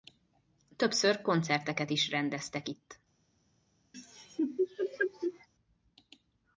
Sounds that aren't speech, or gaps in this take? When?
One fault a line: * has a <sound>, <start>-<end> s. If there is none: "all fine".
* has a laugh, 3.9-5.5 s